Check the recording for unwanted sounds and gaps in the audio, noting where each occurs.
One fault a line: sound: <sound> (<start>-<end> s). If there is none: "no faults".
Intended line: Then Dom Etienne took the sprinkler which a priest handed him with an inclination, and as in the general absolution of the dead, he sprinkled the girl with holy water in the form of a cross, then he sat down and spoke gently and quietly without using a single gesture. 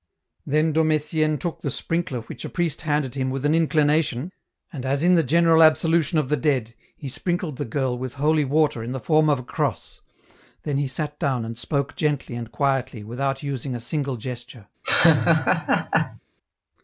sound: laugh (14.8-16.2 s)